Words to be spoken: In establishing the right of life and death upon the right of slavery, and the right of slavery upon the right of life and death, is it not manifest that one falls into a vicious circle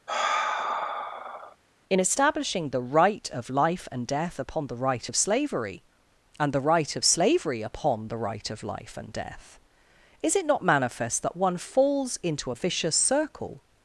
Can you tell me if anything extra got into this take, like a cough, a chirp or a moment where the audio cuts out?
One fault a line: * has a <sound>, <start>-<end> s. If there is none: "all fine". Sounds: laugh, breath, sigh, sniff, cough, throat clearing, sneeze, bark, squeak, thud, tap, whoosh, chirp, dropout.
* has a sigh, 0.1-1.6 s